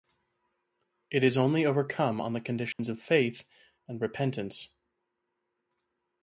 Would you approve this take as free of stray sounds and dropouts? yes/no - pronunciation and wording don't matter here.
no